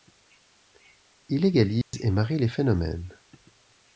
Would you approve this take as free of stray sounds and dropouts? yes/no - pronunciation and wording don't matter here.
no